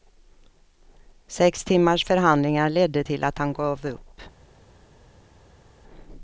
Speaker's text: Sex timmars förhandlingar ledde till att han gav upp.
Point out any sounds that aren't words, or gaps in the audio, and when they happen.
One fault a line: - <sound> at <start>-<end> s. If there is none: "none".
none